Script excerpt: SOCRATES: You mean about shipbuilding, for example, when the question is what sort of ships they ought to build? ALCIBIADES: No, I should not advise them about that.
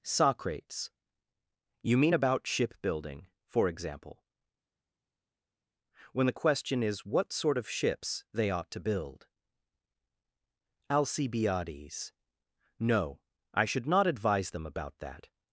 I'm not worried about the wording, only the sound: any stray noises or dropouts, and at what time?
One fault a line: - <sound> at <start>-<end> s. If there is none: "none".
none